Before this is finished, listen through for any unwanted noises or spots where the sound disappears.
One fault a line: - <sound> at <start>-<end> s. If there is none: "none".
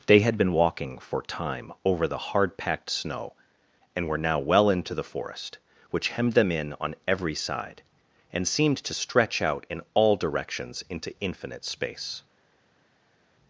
none